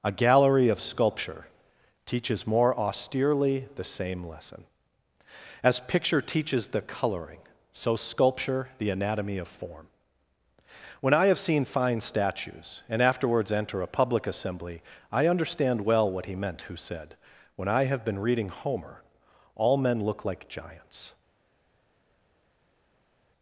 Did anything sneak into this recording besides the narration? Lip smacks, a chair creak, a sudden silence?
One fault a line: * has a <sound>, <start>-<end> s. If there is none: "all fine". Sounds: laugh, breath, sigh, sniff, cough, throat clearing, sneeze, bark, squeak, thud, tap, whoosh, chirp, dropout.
all fine